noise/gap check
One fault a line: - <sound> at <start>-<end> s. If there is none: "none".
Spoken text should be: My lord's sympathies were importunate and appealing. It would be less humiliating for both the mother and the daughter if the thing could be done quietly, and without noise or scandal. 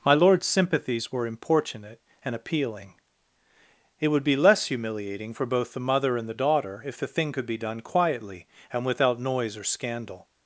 none